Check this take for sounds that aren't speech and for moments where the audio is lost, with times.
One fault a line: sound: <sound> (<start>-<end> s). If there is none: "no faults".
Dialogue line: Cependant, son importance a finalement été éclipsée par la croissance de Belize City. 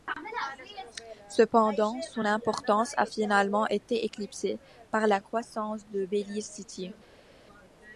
no faults